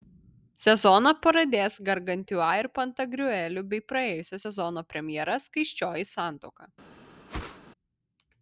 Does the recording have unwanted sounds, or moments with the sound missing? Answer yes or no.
yes